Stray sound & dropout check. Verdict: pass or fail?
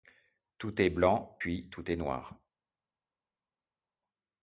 pass